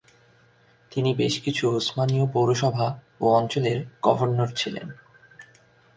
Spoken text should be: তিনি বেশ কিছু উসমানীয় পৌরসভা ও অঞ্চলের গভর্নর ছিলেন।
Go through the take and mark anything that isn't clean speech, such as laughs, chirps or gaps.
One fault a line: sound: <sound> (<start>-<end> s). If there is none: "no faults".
no faults